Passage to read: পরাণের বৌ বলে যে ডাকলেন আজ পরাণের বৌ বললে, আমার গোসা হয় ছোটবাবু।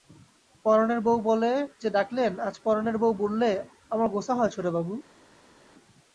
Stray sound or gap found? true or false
false